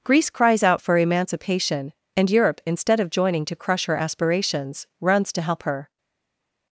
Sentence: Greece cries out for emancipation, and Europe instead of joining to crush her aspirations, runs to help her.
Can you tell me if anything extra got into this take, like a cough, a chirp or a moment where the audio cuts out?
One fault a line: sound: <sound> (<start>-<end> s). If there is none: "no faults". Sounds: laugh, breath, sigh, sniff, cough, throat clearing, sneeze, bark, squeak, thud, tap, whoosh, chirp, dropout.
no faults